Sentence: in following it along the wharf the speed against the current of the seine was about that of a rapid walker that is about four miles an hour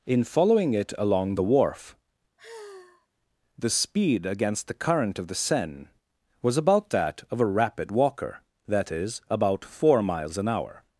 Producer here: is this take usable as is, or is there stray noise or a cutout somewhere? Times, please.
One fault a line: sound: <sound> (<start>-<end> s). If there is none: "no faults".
sound: sigh (2.4-3.1 s)